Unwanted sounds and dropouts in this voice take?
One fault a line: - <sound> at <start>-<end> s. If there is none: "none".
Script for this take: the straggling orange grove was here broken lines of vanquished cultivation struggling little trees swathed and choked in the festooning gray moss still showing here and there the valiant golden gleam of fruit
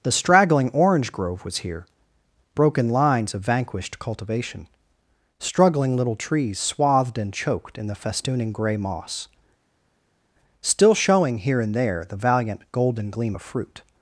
none